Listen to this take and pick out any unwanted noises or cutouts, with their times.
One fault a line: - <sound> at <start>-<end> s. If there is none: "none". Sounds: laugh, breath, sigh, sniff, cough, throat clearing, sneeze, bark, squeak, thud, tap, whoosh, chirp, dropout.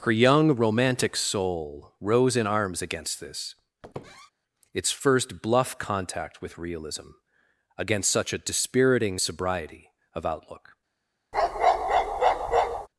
- squeak at 3.8-4.3 s
- bark at 11.3-12.9 s